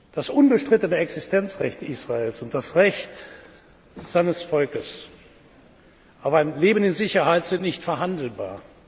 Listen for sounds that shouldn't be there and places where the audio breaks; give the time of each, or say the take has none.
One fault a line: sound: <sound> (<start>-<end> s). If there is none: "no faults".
no faults